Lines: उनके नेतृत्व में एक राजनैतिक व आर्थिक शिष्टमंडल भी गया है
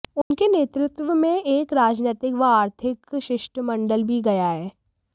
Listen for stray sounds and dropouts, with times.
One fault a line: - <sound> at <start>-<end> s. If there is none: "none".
- dropout at 0.2-0.3 s